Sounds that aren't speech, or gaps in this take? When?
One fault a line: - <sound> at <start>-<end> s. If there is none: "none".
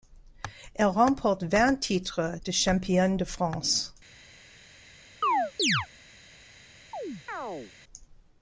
- chirp at 5.2-5.9 s
- chirp at 6.9-7.7 s